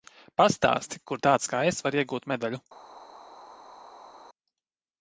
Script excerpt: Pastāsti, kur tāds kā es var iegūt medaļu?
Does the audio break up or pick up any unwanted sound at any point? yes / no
no